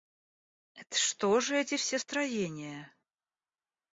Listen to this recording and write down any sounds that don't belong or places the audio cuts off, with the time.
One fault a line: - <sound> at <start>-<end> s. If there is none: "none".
none